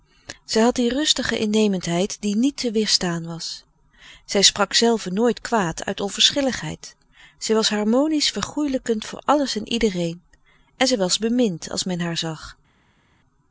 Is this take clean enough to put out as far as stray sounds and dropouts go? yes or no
yes